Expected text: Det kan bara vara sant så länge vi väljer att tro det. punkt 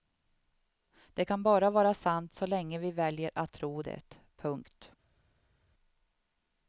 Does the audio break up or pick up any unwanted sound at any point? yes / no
no